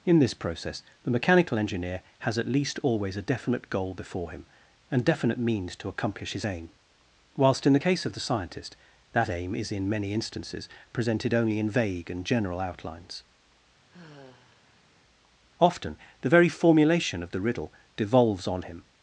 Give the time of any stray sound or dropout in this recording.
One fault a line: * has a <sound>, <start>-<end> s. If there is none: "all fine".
* has a sigh, 13.9-14.9 s